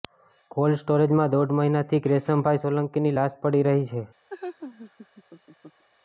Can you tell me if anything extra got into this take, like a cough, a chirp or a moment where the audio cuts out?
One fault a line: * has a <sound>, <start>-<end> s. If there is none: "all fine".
* has a laugh, 4.3-5.8 s